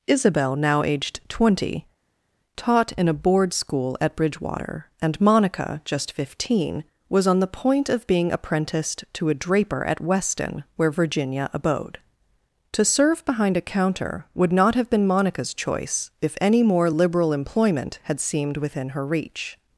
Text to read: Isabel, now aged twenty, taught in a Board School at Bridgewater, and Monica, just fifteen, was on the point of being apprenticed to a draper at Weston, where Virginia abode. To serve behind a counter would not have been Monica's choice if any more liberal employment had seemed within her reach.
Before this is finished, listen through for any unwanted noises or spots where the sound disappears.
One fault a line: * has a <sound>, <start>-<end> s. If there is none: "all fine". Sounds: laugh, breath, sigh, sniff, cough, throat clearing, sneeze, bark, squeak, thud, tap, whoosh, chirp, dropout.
all fine